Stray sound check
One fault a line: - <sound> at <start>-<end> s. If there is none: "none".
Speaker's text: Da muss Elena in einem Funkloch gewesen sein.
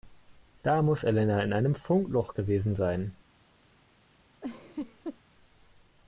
- laugh at 4.4-5.2 s